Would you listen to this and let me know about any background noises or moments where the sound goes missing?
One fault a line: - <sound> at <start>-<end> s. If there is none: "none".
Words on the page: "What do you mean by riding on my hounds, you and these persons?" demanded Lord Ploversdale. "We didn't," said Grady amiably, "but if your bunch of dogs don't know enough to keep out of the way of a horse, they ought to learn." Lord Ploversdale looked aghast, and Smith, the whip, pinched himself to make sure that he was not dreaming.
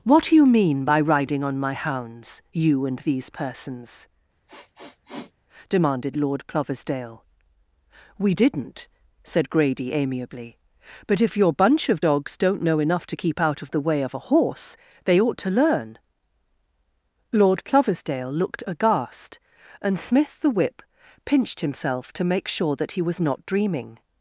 - sniff at 4.5-5.3 s